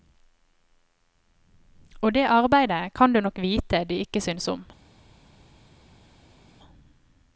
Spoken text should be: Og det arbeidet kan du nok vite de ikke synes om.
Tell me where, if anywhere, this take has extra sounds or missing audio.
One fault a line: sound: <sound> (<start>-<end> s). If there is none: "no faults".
no faults